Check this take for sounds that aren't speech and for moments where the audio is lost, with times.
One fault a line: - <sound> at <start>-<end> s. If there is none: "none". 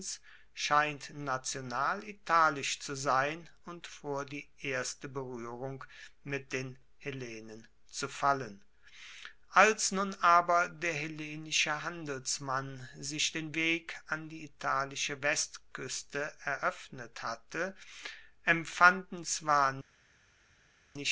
none